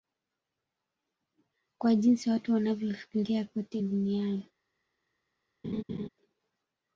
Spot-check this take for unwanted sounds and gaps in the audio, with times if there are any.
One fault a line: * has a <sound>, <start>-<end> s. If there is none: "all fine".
* has a laugh, 5.6-6.1 s